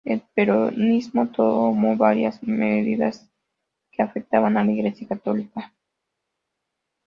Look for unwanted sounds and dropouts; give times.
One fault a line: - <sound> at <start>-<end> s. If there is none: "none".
none